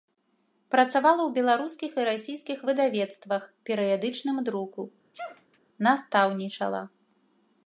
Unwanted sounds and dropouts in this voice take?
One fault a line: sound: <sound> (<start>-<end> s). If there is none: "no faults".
sound: sneeze (5.1-5.6 s)